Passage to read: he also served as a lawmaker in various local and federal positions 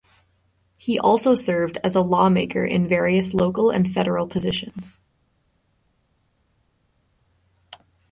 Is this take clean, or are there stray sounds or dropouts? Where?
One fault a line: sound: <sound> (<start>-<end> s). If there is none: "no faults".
no faults